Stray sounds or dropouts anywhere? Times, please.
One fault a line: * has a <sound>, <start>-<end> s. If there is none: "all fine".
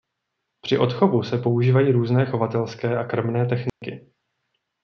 * has a dropout, 3.7-3.8 s